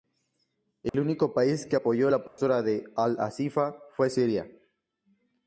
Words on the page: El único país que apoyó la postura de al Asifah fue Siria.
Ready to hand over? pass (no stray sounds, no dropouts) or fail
fail